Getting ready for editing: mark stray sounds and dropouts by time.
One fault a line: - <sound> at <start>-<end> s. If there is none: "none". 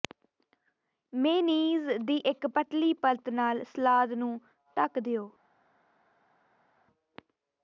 none